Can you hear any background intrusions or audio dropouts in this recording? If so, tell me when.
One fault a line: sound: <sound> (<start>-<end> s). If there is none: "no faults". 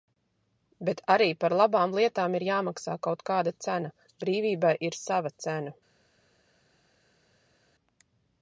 no faults